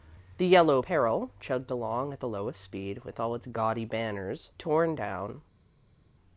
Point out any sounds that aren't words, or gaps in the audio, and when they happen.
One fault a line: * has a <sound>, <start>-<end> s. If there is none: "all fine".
all fine